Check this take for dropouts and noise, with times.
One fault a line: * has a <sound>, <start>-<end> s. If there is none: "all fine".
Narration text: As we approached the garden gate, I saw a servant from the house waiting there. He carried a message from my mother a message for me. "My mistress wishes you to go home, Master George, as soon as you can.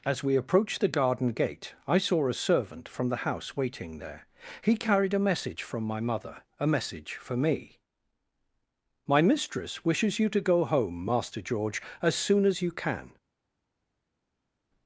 all fine